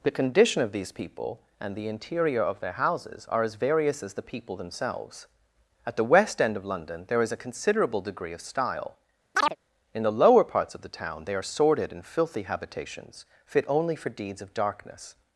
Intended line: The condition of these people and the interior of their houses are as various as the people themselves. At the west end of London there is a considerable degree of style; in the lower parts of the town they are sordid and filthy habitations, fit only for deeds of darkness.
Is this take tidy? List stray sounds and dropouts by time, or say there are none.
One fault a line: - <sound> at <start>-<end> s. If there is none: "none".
- chirp at 9.3-9.6 s